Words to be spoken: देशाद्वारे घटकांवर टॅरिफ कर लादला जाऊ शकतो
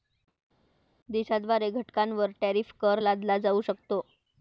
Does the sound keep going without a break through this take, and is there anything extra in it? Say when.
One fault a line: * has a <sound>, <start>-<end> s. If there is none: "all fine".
all fine